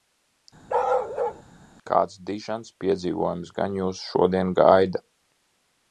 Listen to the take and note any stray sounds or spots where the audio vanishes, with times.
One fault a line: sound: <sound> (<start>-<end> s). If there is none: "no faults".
sound: bark (0.7-1.4 s)